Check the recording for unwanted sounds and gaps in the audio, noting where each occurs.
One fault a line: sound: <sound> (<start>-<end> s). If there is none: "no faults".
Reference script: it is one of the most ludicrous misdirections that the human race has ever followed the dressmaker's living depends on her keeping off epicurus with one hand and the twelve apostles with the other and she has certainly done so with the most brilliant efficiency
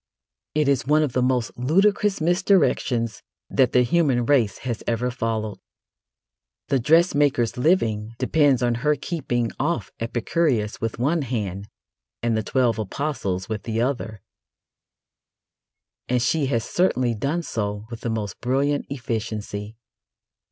no faults